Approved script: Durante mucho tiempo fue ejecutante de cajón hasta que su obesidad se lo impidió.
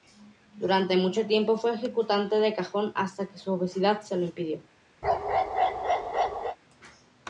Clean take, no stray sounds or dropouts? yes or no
no